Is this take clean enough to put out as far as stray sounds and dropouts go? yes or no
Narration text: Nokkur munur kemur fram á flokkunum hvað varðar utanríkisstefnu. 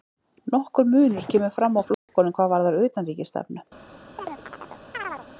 no